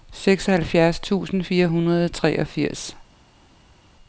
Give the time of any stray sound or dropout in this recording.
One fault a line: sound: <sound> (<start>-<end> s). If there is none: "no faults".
no faults